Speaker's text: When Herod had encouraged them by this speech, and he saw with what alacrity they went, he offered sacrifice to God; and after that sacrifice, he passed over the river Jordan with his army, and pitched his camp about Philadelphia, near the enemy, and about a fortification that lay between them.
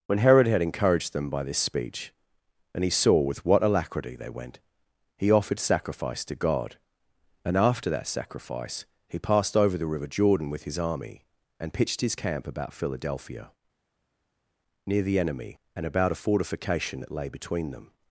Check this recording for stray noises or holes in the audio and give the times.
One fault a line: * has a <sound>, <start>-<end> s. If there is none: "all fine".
all fine